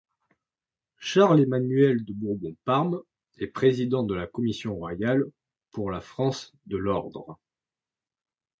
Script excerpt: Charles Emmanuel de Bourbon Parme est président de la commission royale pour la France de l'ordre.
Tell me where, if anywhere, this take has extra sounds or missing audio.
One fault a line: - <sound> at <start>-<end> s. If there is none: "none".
none